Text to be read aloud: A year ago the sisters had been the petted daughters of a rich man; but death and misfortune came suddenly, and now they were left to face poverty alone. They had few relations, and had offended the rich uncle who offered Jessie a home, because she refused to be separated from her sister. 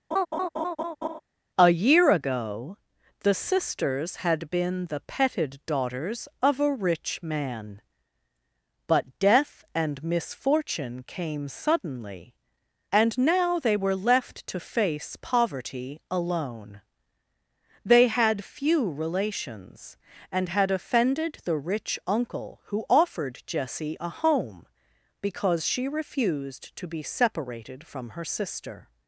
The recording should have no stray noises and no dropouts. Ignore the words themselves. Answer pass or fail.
fail